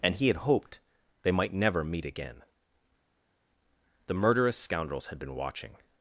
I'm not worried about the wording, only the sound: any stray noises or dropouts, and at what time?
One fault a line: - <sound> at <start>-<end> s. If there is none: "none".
none